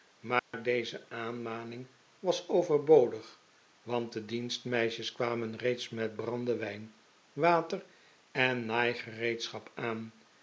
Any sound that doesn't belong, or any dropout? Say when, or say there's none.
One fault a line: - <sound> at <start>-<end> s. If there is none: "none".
- dropout at 0.4-0.5 s